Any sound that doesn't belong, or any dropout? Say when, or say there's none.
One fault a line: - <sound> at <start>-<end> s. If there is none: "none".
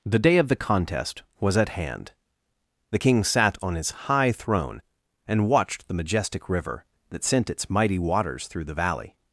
none